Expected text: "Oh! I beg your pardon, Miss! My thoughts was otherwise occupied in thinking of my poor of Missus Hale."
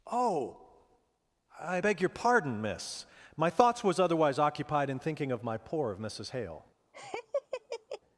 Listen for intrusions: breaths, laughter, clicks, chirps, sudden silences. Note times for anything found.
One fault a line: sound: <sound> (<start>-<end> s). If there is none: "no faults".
sound: laugh (6.9-8.0 s)